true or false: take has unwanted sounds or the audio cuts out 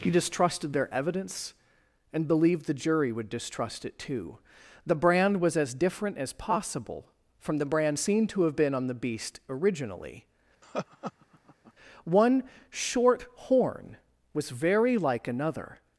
true